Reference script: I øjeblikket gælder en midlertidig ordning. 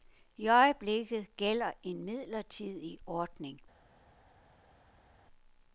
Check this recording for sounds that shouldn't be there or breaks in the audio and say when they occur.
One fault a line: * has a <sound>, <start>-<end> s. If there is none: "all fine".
all fine